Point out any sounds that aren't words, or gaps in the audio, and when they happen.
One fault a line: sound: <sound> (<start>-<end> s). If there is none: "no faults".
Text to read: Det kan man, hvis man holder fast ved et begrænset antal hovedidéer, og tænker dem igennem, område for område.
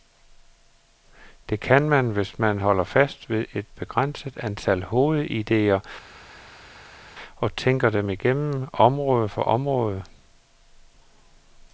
no faults